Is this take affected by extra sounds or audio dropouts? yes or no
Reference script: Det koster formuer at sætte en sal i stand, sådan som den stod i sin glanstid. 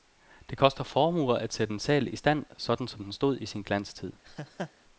yes